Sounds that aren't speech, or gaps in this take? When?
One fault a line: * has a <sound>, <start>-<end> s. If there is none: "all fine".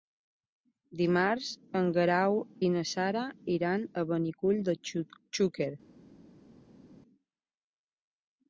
all fine